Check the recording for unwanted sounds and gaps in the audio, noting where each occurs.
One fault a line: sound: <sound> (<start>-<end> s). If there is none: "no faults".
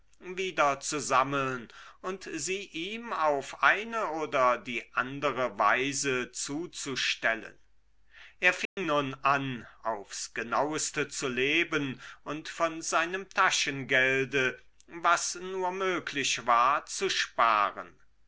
sound: dropout (8.7-8.8 s)